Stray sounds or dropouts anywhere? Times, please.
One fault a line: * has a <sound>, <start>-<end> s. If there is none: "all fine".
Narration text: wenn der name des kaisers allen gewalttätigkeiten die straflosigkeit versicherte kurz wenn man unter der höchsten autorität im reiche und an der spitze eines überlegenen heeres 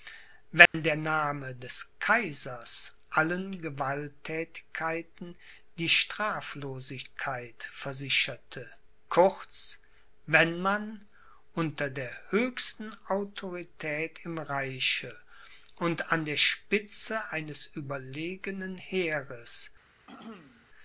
* has a dropout, 0.7-0.7 s
* has a throat clearing, 20.1-20.7 s